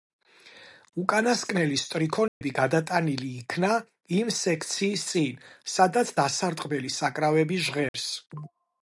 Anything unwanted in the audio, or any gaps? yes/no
yes